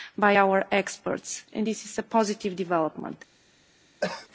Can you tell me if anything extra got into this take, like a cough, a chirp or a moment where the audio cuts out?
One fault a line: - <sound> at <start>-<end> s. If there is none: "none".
- cough at 4.0-4.3 s